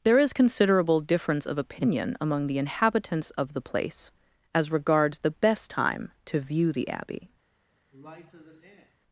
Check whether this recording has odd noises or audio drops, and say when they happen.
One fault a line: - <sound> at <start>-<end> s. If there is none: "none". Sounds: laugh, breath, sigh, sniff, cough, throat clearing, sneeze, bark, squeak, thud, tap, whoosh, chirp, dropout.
- sigh at 7.9-9.0 s